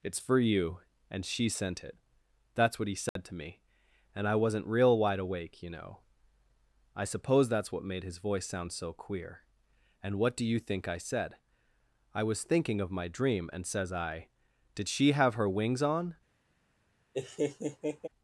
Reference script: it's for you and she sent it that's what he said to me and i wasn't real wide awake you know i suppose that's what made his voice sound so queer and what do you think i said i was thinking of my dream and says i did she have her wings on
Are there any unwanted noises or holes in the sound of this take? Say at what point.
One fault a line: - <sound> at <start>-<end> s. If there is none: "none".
- dropout at 3.1-3.2 s
- laugh at 17.1-18.1 s